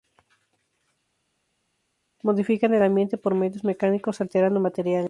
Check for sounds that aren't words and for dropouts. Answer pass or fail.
pass